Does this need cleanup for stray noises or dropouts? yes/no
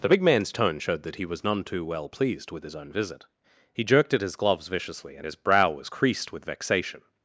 no